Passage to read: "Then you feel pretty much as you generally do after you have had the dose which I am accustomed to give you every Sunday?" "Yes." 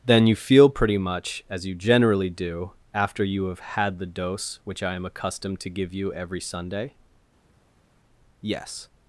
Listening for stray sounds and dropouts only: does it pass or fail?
pass